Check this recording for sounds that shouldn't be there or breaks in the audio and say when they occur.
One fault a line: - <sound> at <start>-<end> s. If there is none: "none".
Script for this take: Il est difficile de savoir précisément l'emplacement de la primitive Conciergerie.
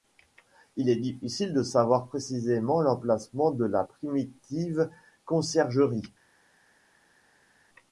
none